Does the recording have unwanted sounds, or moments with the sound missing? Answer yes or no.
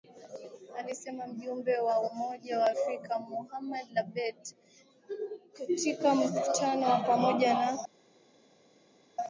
no